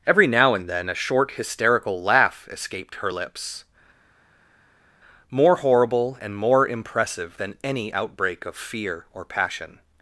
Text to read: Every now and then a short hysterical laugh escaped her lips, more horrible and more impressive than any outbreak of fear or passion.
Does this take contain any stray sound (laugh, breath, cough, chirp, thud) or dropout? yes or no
no